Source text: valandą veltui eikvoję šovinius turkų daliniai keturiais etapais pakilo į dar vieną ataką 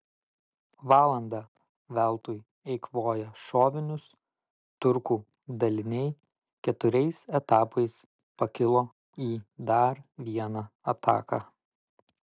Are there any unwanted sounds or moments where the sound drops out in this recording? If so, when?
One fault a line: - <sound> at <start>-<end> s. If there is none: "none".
none